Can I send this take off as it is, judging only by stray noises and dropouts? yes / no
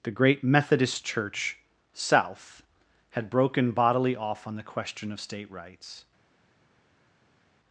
yes